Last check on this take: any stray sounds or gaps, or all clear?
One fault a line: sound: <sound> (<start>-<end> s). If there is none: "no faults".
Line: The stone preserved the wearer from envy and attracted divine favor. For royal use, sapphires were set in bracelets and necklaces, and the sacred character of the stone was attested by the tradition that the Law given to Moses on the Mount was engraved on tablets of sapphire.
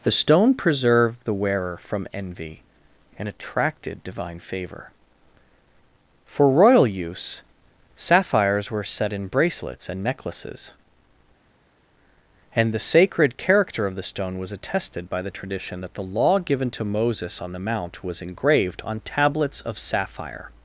no faults